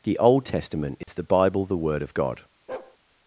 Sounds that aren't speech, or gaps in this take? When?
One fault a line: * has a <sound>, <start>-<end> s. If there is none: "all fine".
* has a dropout, 1.0-1.1 s
* has a bark, 2.7-3.0 s